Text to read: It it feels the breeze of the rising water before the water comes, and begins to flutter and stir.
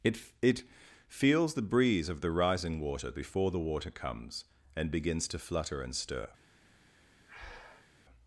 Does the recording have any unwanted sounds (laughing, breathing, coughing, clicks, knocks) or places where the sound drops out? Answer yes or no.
yes